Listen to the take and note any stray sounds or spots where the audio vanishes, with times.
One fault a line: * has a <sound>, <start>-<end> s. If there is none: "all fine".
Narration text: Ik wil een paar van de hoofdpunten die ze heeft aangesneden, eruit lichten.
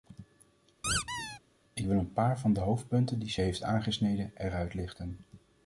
* has a squeak, 0.8-1.4 s